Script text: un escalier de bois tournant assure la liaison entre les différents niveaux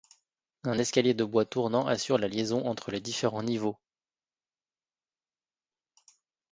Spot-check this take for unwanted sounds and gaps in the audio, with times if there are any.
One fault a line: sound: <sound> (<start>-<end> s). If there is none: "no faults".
no faults